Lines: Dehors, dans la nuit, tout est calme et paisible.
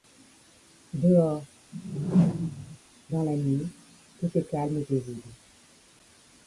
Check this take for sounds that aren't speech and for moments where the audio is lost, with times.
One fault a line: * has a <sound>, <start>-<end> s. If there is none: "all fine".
* has a whoosh, 1.7-2.8 s